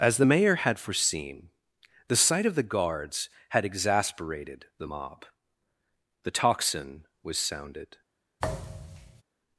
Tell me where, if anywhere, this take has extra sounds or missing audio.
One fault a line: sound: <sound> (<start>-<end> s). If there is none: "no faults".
sound: thud (8.4-9.2 s)